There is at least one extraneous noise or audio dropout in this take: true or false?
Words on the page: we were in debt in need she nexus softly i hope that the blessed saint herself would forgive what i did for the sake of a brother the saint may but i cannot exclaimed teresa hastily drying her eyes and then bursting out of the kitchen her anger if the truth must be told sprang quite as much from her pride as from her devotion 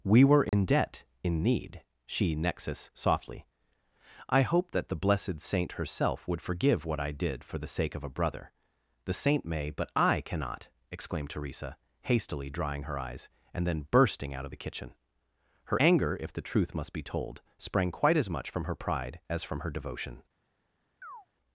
true